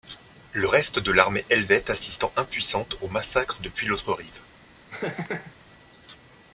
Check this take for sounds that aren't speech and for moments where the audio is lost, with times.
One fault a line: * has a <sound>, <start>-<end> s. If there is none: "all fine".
* has a laugh, 4.9-5.5 s